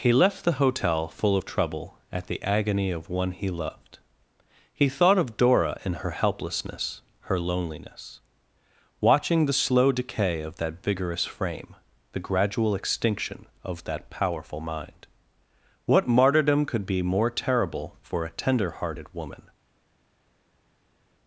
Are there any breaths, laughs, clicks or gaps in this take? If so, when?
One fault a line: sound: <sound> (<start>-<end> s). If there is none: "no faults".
no faults